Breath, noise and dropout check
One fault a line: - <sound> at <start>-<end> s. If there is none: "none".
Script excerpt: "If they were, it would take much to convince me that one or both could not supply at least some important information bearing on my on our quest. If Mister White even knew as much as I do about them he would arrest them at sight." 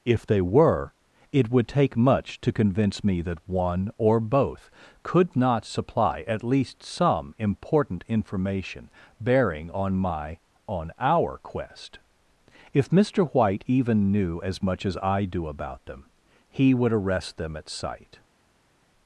none